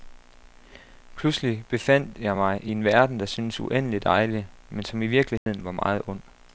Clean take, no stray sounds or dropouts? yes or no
no